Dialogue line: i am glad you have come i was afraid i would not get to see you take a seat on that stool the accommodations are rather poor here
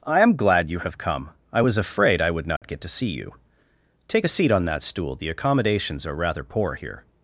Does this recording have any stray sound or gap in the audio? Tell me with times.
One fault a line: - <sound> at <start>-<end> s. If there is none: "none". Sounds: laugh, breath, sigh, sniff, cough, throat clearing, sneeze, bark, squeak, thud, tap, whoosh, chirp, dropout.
- dropout at 2.6-2.6 s